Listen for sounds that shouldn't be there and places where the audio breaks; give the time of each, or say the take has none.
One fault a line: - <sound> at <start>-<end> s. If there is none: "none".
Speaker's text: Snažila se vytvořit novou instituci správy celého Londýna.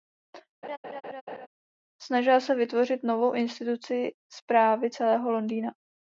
- laugh at 0.6-1.5 s